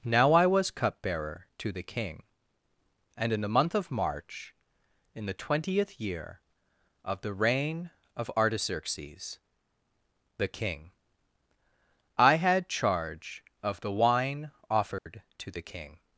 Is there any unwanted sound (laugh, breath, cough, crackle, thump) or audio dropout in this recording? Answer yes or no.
yes